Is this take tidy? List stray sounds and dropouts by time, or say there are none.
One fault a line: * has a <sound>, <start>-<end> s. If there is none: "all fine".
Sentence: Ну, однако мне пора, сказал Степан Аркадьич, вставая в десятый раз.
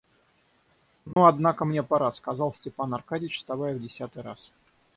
* has a dropout, 1.1-1.2 s